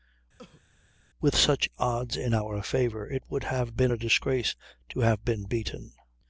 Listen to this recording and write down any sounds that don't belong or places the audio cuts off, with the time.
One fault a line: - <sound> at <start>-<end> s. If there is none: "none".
- cough at 0.4-0.6 s